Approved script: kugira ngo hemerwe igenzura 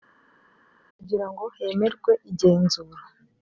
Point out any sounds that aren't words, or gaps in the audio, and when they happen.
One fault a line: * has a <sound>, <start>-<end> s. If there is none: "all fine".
all fine